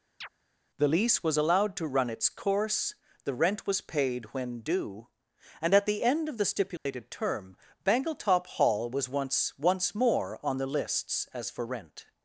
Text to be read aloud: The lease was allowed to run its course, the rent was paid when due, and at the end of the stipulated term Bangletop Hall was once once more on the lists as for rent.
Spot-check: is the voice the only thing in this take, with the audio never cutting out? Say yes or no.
no